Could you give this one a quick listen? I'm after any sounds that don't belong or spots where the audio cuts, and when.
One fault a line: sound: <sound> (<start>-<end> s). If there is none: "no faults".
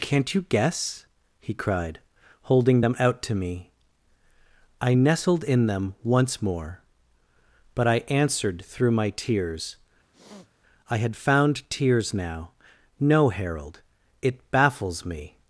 sound: sniff (10.1-10.5 s)